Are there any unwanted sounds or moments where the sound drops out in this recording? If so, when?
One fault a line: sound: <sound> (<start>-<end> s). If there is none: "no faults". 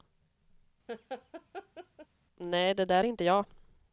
sound: laugh (0.9-2.1 s)